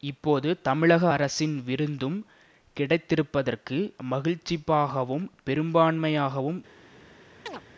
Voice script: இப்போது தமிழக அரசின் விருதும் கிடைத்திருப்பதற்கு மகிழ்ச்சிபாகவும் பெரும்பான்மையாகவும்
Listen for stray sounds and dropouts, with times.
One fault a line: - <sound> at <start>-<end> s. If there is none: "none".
- chirp at 7.5-7.6 s